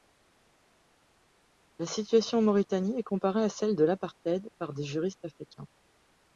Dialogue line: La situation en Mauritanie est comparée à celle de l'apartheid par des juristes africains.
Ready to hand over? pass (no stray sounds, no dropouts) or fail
pass